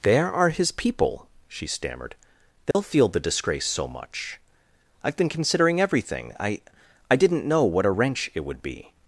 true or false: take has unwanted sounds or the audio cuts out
true